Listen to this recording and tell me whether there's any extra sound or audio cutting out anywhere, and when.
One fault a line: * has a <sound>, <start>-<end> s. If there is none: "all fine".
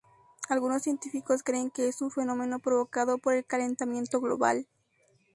all fine